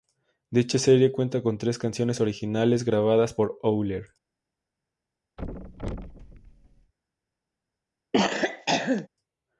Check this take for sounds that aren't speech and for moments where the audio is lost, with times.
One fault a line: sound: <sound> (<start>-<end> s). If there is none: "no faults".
sound: thud (5.4-6.9 s)
sound: cough (8.1-9.1 s)